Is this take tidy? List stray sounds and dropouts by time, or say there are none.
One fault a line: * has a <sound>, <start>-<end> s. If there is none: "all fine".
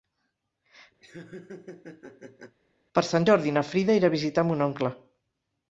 * has a laugh, 1.0-2.6 s